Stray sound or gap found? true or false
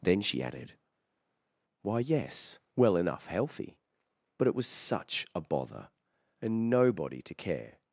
false